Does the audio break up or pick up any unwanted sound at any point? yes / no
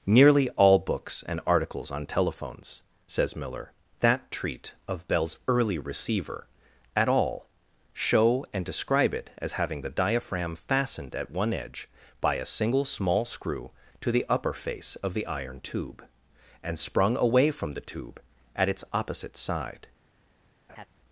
yes